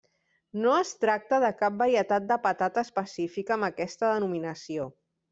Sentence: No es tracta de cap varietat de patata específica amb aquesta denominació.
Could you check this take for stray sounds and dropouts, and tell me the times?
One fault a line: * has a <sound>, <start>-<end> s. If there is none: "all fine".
all fine